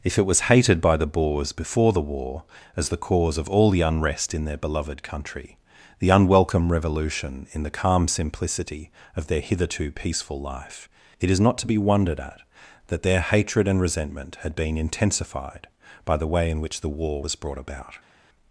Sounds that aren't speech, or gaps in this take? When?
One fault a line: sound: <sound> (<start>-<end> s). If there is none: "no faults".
no faults